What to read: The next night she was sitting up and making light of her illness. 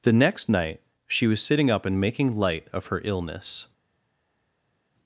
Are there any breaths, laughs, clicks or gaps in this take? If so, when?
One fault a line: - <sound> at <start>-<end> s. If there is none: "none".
none